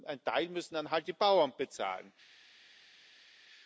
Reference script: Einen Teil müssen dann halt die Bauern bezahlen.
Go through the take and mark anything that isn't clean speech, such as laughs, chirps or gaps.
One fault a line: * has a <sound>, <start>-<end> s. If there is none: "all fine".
all fine